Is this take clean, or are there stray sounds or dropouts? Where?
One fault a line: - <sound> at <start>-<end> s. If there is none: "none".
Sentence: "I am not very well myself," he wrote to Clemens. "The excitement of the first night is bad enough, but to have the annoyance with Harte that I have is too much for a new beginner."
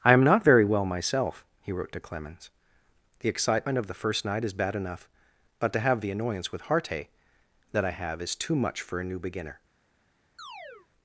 - chirp at 10.4-10.9 s